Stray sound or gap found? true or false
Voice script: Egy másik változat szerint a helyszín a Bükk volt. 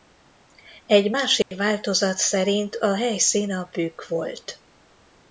true